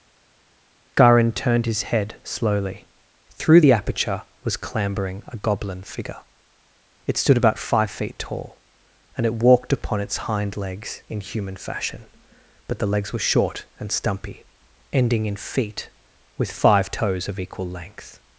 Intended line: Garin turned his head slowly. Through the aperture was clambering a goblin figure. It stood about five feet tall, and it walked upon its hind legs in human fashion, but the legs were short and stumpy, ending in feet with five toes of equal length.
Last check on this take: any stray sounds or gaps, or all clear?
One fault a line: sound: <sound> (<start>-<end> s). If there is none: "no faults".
no faults